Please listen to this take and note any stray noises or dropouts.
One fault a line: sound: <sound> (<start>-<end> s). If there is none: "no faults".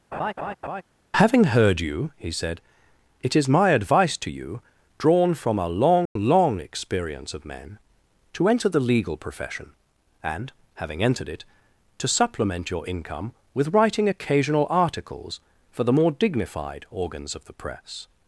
sound: laugh (0.1-0.8 s)
sound: dropout (6.1-6.2 s)